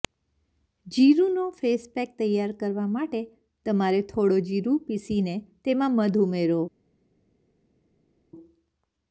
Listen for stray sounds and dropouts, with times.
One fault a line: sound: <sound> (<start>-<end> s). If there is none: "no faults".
no faults